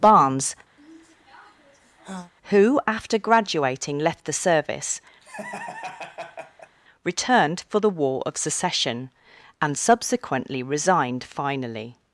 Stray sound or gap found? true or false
true